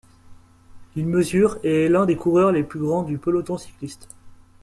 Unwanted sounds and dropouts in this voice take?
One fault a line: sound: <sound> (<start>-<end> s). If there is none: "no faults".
no faults